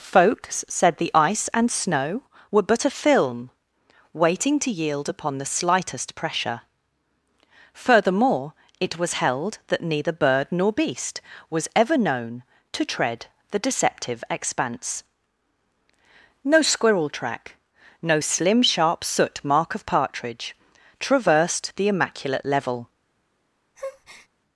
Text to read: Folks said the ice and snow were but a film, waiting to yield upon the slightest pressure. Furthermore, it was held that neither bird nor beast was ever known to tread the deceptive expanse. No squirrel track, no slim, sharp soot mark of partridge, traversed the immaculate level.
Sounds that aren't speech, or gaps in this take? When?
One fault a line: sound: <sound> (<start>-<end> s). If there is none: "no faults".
sound: breath (23.8-24.3 s)